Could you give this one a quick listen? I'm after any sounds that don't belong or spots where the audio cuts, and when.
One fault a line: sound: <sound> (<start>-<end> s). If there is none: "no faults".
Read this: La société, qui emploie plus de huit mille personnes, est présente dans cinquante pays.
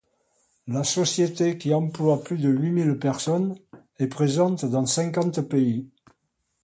no faults